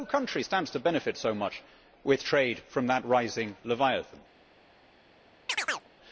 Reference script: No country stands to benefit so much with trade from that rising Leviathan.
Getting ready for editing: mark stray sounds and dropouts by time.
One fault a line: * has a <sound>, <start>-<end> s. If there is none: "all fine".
* has a chirp, 5.5-5.9 s